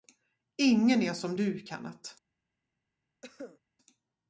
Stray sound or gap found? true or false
true